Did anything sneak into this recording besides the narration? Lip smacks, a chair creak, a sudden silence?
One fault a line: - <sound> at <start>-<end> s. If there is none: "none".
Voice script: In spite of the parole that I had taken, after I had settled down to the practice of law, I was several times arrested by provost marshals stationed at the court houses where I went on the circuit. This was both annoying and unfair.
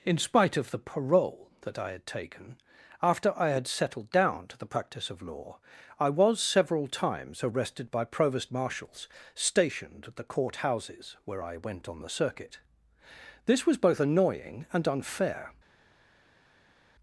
none